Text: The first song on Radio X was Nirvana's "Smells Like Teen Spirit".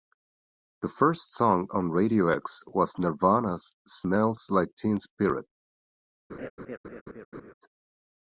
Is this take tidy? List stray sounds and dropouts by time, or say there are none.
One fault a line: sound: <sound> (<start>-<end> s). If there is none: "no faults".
sound: laugh (6.3-7.5 s)